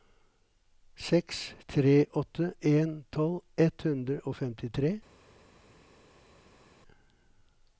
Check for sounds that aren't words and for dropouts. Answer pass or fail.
pass